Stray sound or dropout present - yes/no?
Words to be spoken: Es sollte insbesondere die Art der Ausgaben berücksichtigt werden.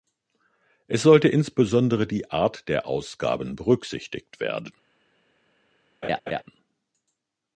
yes